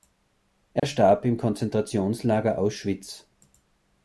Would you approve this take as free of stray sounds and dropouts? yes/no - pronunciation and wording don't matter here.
no